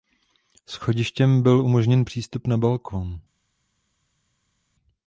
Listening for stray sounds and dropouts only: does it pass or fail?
pass